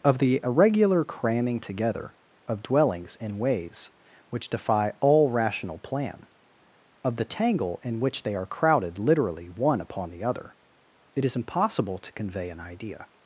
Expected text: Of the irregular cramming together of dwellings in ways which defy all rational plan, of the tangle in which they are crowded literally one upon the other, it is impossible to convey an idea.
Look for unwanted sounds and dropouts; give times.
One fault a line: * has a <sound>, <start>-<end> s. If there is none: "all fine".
all fine